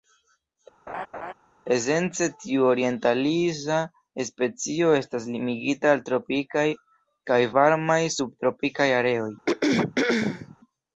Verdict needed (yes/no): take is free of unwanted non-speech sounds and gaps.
no